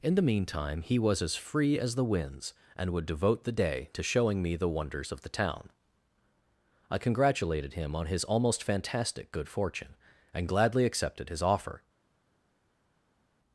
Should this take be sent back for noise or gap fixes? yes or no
no